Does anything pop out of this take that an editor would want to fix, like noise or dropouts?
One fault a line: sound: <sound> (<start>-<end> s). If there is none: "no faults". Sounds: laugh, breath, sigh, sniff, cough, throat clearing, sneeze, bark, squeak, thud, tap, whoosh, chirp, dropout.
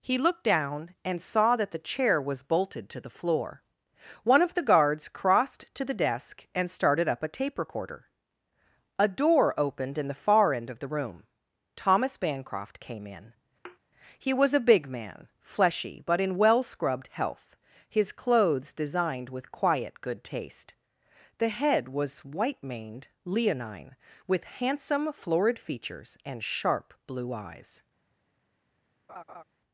sound: thud (13.6-13.8 s)
sound: laugh (29.1-29.4 s)